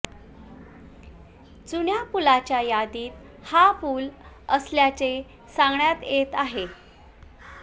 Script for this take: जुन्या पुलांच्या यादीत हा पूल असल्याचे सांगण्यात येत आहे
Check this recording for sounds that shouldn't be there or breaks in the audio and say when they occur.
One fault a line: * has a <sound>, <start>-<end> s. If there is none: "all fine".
all fine